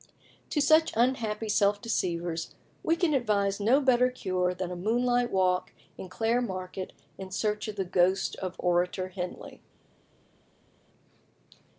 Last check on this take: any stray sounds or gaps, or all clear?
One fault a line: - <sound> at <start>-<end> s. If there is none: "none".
none